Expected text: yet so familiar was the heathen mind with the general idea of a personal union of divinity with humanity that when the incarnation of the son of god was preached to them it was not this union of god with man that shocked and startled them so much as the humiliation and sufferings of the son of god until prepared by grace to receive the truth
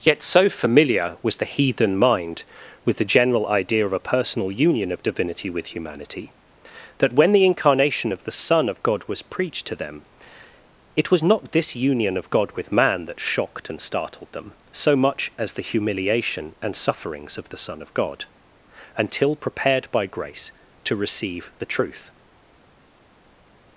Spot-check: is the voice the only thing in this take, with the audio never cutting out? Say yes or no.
yes